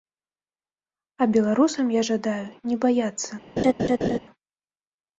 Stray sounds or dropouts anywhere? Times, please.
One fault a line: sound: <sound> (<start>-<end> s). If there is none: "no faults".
sound: laugh (3.6-4.2 s)